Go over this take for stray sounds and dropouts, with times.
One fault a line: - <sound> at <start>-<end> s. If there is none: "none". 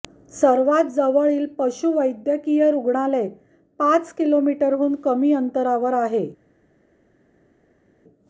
none